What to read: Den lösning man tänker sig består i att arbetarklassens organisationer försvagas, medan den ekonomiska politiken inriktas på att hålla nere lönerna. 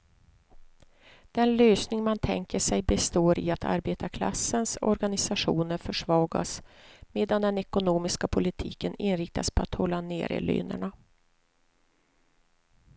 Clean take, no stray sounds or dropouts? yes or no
yes